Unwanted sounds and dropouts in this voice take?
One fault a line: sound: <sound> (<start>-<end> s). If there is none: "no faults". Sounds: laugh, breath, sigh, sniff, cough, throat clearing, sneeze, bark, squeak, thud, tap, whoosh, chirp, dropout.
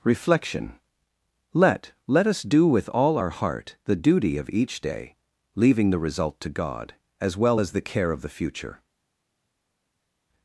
no faults